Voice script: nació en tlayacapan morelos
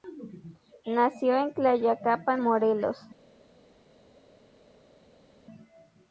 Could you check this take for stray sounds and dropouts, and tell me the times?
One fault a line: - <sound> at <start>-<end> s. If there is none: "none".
none